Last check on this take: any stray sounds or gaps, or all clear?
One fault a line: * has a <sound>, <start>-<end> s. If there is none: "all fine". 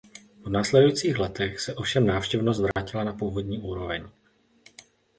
* has a dropout, 2.7-2.8 s